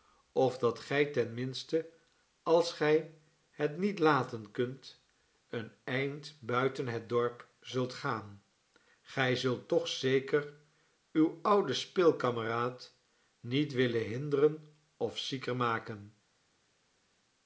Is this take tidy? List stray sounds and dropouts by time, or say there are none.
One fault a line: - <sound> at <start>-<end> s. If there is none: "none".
none